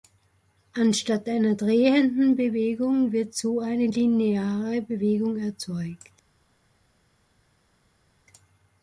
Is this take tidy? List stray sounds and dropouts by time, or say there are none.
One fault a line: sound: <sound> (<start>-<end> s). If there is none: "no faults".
no faults